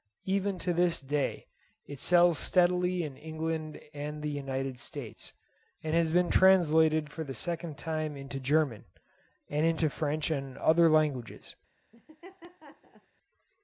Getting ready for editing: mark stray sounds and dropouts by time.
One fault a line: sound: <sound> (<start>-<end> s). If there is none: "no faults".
sound: laugh (11.9-13.1 s)